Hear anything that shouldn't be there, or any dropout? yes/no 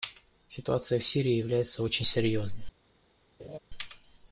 yes